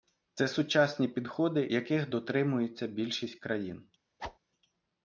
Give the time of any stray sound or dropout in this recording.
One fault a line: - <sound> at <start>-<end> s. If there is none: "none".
- whoosh at 4.2-4.4 s